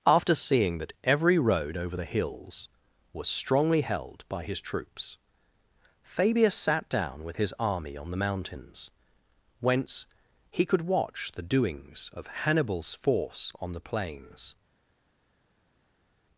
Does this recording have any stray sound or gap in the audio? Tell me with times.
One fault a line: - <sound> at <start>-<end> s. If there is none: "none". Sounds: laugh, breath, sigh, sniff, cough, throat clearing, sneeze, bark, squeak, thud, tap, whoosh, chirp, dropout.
none